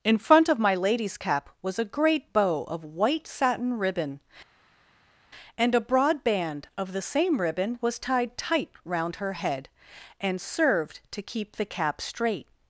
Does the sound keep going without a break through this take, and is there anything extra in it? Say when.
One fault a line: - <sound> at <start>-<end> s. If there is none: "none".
none